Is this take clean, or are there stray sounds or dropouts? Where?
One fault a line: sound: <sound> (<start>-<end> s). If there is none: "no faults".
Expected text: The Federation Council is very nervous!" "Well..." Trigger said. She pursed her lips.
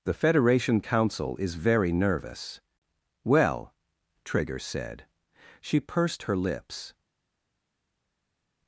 no faults